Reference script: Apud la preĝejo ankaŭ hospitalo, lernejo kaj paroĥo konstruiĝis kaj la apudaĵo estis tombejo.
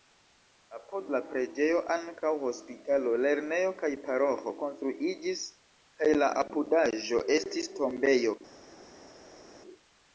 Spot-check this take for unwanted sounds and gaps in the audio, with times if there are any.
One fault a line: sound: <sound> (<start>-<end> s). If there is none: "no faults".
no faults